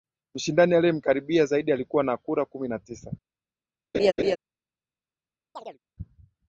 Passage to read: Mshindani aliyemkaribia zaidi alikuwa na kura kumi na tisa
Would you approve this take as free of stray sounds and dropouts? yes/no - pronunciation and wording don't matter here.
no